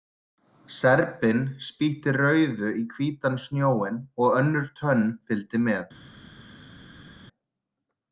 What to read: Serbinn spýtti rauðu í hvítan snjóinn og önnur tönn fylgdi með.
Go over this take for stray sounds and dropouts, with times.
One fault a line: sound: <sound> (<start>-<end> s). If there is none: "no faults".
no faults